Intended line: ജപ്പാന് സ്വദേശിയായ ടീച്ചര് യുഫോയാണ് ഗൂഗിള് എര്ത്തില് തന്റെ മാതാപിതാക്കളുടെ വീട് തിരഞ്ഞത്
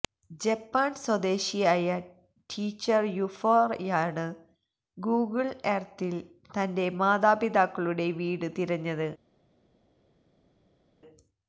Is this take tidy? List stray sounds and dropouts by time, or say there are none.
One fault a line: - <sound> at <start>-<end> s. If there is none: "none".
none